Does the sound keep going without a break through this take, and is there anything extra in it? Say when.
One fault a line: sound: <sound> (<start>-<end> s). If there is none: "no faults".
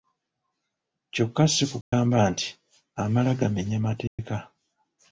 sound: dropout (1.8-1.9 s)
sound: dropout (4.1-4.2 s)